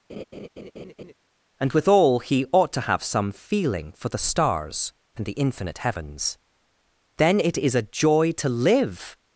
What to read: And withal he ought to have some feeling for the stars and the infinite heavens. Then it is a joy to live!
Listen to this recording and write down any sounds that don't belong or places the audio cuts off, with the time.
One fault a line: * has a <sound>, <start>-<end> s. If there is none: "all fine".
* has a laugh, 0.1-1.1 s